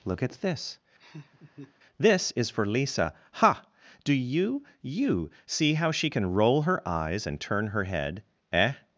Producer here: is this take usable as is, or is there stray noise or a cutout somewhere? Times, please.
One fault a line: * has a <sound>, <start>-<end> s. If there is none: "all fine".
* has a laugh, 1.0-1.7 s